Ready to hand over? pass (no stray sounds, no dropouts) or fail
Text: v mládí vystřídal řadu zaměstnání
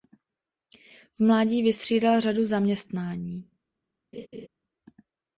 fail